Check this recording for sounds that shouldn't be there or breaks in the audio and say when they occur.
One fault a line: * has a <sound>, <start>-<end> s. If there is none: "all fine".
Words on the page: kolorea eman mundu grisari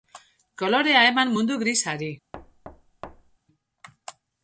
* has a thud, 2.3-3.4 s